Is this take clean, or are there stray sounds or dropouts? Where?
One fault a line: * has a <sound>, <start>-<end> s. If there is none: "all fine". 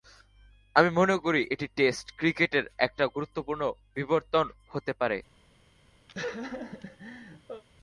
* has a laugh, 6.1-7.6 s